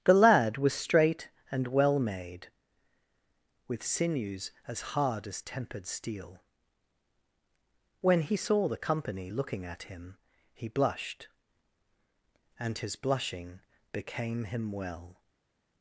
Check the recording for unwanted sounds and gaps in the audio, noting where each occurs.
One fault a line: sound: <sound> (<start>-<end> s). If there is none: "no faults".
no faults